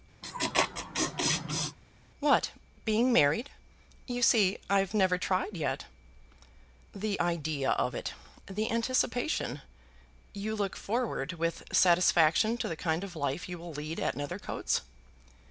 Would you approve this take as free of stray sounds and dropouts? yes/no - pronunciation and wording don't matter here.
no